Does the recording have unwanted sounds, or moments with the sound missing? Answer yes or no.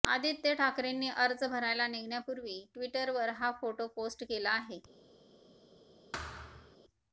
yes